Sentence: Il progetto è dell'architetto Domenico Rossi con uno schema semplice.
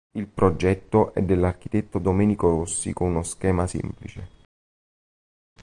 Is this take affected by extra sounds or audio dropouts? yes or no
no